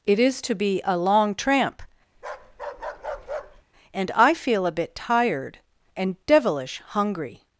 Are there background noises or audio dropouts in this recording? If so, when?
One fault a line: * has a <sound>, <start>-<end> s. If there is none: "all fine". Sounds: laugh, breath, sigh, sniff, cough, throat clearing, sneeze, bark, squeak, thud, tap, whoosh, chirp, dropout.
* has a bark, 2.1-3.6 s